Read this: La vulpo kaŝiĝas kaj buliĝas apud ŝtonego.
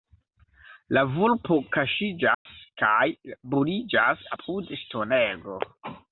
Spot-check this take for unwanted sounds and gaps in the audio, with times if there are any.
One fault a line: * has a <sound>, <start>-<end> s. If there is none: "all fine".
* has a dropout, 2.3-2.5 s